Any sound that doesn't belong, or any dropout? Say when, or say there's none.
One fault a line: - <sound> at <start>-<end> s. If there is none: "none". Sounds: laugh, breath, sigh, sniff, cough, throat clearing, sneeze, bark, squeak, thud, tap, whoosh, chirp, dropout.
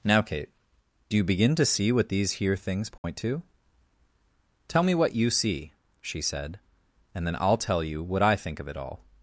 - dropout at 3.0-3.0 s